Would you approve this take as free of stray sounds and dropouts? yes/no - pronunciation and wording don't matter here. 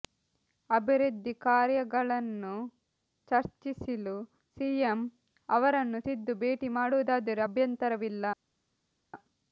yes